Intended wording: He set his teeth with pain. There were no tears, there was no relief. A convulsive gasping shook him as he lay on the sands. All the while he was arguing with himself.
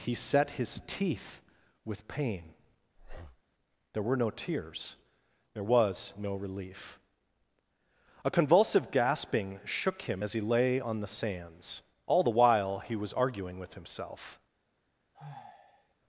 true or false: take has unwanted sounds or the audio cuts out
true